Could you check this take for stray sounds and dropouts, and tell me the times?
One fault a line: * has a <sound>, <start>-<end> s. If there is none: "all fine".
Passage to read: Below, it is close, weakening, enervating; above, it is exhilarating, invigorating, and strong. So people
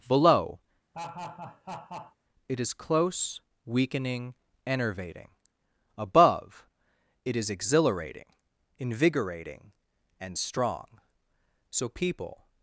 * has a laugh, 0.9-2.2 s